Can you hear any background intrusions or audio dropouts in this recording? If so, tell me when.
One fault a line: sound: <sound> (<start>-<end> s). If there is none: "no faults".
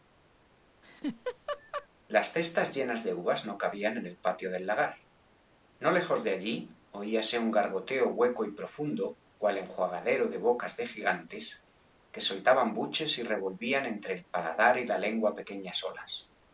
sound: laugh (0.8-1.9 s)